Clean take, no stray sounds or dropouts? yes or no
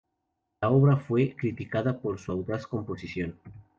yes